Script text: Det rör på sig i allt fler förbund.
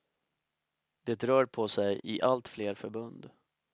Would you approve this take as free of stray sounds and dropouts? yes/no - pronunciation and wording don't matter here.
yes